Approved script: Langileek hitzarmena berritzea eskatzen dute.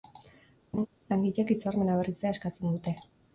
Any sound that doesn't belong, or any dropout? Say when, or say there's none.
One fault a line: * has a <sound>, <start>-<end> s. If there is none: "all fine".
* has a laugh, 0.7-0.9 s